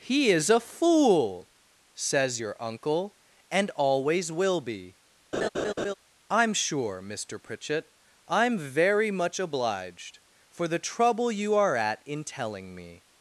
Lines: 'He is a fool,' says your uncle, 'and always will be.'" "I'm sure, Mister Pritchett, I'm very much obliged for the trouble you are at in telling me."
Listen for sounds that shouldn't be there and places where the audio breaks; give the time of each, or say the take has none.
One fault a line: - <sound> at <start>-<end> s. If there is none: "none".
- laugh at 5.3-5.9 s